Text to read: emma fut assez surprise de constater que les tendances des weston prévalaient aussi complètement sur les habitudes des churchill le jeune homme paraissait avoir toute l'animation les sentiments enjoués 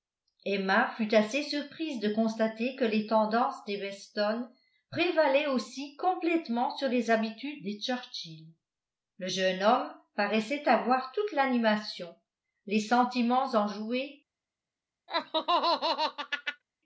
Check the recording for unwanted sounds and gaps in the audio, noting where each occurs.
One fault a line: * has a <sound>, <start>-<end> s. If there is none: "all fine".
* has a laugh, 15.1-16.6 s